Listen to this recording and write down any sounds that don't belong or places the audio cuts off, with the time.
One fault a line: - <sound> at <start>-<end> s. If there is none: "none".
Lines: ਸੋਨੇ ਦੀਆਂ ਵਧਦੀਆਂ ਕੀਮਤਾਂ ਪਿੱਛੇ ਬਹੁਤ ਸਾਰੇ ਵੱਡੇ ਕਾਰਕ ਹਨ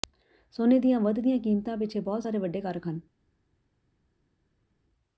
none